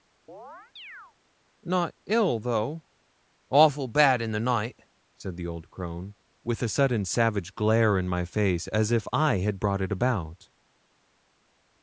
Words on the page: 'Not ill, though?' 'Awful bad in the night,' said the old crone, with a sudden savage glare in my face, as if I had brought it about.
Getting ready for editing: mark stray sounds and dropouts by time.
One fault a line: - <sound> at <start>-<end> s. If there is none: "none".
- chirp at 0.3-1.1 s